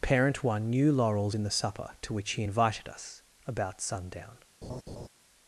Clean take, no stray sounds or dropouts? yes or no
no